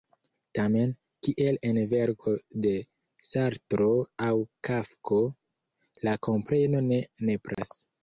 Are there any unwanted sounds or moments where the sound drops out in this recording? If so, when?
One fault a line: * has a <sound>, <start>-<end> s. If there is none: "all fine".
* has a dropout, 7.5-7.6 s